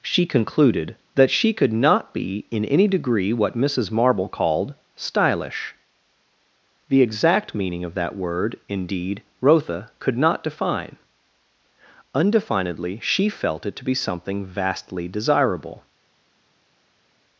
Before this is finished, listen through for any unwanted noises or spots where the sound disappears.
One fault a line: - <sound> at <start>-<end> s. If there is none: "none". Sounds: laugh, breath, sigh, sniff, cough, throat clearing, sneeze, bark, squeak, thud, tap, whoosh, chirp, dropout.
none